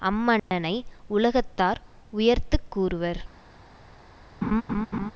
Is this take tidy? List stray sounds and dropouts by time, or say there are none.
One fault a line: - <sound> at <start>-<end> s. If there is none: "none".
- dropout at 0.4-0.5 s
- laugh at 4.4-5.1 s